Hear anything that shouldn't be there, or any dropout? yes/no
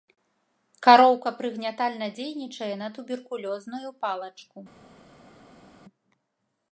no